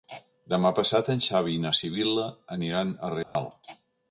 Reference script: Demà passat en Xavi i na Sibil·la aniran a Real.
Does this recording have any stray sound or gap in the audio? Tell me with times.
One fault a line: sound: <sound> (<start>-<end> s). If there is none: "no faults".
sound: dropout (3.2-3.4 s)